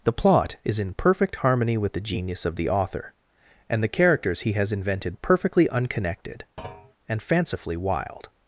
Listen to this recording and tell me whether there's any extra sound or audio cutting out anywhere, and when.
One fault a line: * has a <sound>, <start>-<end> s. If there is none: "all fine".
* has a thud, 6.6-6.9 s